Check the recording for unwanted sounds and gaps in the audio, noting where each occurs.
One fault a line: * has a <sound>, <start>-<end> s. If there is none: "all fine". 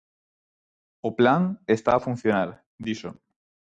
all fine